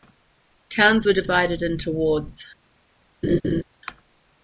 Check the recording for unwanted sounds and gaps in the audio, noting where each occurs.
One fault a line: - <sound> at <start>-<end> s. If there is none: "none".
- laugh at 3.2-3.6 s